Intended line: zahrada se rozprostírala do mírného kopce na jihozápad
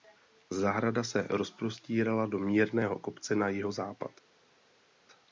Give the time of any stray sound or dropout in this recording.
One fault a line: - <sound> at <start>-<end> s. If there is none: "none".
none